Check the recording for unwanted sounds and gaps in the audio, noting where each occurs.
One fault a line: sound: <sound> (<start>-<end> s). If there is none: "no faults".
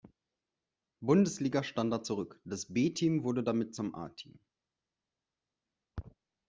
no faults